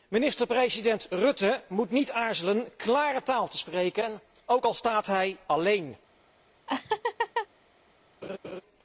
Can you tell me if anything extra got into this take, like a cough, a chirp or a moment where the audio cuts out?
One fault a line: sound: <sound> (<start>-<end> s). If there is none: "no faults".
sound: laugh (6.7-7.5 s)
sound: laugh (8.2-8.6 s)